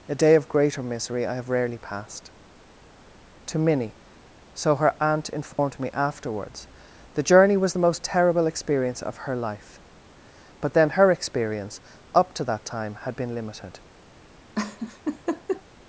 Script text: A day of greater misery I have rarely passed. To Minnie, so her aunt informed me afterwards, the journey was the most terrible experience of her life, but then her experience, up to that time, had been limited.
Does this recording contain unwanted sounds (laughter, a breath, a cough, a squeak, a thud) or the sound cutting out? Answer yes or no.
yes